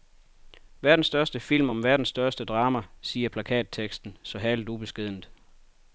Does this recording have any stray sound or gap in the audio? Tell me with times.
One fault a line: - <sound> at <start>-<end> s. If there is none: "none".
none